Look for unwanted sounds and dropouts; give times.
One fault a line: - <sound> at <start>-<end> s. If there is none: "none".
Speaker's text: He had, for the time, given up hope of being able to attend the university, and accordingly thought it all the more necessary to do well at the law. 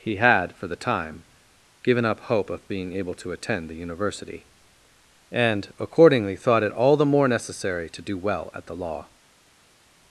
none